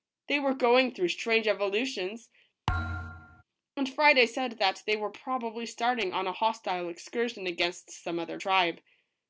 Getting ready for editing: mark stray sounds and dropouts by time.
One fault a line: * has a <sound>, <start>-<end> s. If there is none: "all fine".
* has a thud, 2.7-3.4 s